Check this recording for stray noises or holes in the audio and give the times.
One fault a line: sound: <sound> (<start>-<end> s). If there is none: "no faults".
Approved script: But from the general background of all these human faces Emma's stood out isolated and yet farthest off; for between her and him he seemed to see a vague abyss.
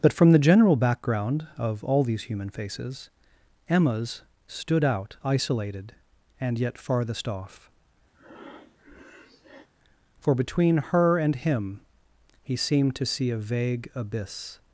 sound: breath (8.1-9.7 s)